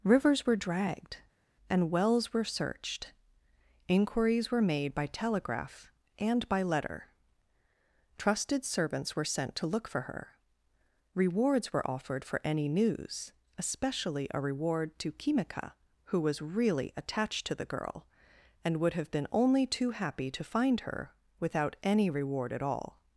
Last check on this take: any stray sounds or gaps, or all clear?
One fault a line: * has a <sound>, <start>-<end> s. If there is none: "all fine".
all fine